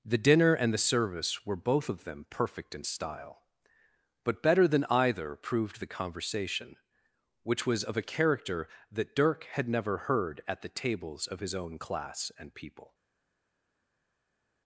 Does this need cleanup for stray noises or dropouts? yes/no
no